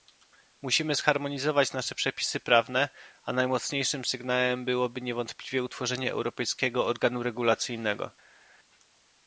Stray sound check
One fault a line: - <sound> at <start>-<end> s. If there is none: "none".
none